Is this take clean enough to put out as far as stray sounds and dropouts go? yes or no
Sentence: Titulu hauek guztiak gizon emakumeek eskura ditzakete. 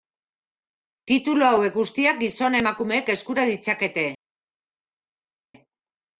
yes